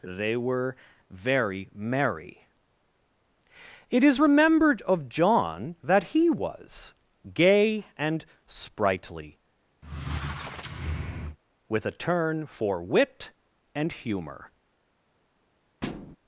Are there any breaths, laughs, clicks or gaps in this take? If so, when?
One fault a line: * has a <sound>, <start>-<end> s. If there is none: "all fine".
* has a squeak, 9.8-11.4 s
* has a thud, 15.8-16.2 s